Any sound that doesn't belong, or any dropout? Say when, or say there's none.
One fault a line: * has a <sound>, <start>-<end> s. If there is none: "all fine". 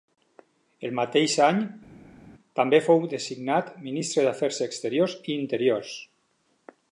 all fine